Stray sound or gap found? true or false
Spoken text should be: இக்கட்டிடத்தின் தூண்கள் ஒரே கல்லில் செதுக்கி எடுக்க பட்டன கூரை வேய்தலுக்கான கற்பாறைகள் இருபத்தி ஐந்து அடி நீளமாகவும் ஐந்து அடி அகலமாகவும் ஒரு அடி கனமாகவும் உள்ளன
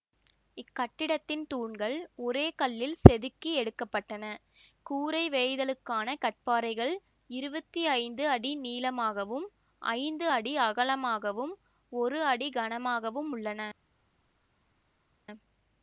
false